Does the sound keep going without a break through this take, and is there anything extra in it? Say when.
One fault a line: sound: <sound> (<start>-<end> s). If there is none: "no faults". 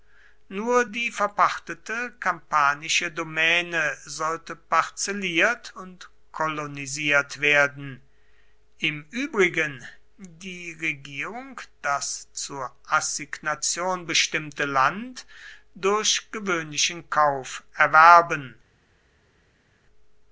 no faults